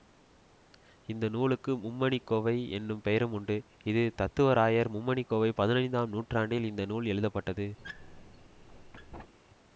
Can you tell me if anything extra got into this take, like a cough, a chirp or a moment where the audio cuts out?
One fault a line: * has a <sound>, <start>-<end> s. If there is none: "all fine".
* has a squeak, 7.8-9.3 s